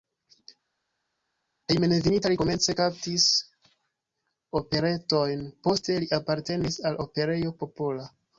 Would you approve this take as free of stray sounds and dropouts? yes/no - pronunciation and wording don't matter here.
yes